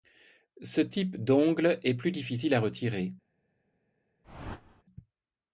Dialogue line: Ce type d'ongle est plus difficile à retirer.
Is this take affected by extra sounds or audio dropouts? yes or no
yes